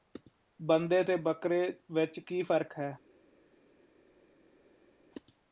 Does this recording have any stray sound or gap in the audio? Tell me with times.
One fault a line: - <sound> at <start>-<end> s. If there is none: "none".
none